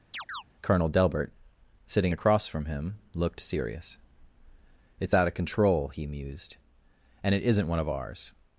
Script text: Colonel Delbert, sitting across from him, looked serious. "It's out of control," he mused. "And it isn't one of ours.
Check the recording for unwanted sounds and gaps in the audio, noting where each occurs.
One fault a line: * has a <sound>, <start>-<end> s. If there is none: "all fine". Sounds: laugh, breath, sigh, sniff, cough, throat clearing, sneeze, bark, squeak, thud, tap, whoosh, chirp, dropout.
* has a chirp, 0.1-0.4 s